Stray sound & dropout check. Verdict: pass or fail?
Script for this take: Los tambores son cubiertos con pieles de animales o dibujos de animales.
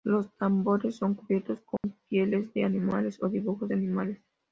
fail